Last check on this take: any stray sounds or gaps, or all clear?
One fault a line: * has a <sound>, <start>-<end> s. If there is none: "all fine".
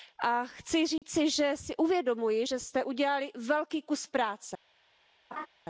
* has a dropout, 1.0-1.0 s
* has a laugh, 5.3-5.5 s